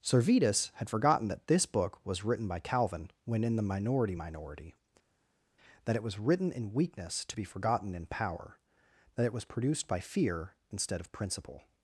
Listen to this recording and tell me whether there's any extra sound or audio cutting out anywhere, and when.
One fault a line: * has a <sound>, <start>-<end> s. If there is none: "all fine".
all fine